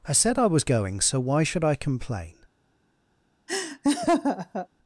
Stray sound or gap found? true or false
true